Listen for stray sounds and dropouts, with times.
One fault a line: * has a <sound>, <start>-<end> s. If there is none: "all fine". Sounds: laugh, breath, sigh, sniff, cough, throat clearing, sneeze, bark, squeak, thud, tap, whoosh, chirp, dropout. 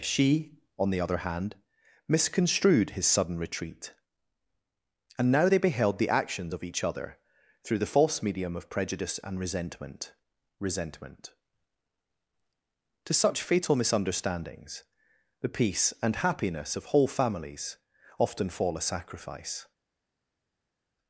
all fine